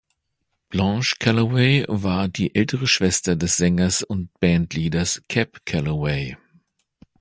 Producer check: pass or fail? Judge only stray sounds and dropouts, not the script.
pass